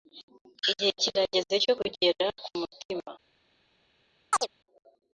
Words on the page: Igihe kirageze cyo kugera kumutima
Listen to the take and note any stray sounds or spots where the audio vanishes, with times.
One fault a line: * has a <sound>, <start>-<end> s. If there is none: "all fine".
* has a chirp, 4.3-4.5 s